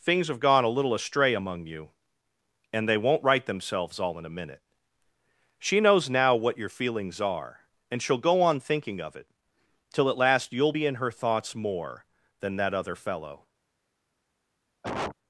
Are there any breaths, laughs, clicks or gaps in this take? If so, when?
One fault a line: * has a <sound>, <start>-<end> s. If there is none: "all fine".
* has a cough, 14.8-15.2 s